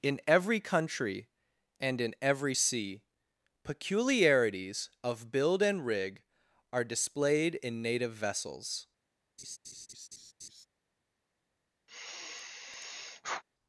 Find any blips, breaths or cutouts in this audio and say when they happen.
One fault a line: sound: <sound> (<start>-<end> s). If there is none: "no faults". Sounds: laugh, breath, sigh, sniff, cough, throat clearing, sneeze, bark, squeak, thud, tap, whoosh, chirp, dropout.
sound: laugh (9.4-10.7 s)
sound: sigh (11.9-13.4 s)